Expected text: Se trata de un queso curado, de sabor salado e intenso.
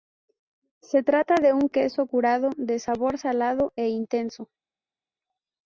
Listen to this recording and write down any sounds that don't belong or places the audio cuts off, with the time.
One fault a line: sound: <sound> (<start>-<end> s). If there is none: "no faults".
no faults